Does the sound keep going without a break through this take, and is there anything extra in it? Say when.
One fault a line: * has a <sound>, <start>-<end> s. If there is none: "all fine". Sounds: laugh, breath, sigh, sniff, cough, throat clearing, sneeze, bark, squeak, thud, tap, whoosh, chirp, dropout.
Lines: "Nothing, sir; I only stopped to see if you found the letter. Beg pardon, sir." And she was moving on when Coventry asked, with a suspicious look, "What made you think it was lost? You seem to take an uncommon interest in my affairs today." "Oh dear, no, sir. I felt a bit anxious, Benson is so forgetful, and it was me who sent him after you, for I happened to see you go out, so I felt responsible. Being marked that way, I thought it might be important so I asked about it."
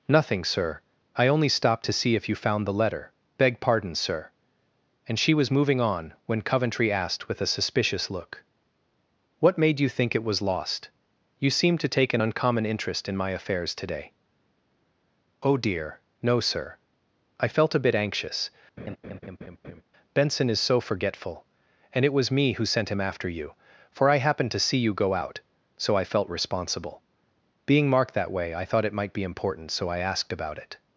* has a laugh, 18.8-19.8 s